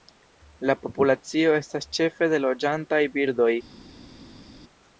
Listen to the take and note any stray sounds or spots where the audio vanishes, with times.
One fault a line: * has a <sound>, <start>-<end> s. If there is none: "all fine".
all fine